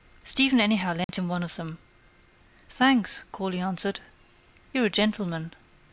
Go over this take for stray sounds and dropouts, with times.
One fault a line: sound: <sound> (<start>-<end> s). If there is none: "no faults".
sound: dropout (1.0-1.1 s)